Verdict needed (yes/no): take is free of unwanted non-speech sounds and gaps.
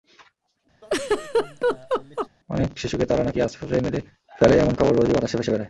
no